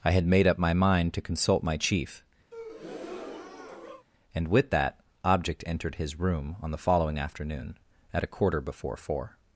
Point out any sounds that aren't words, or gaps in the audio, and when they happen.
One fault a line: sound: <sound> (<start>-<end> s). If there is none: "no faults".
sound: breath (2.5-4.1 s)